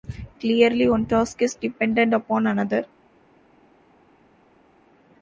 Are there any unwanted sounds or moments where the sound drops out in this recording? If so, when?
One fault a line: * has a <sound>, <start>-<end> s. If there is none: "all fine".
all fine